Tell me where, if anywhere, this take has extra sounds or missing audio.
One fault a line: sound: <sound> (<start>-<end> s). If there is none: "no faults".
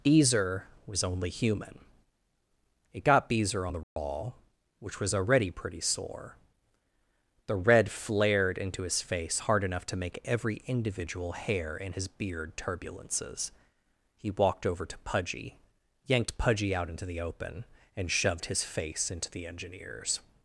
sound: dropout (3.8-4.0 s)